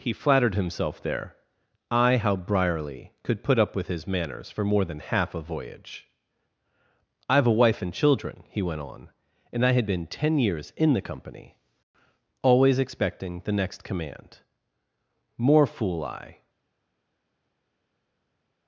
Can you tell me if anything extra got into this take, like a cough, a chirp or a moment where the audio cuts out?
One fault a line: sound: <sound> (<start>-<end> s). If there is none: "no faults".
no faults